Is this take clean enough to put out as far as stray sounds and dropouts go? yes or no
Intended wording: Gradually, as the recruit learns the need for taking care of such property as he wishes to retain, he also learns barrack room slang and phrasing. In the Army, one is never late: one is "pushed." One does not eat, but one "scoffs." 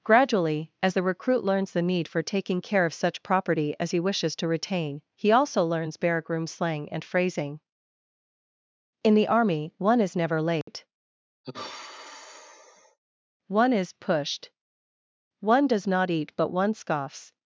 no